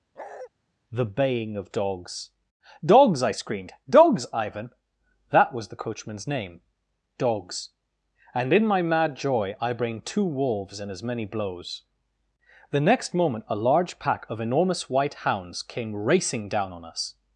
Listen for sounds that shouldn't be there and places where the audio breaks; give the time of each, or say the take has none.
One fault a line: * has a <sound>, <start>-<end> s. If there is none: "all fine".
* has a bark, 0.1-0.5 s